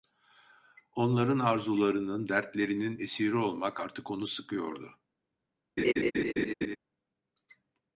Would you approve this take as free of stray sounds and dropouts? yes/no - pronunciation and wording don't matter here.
no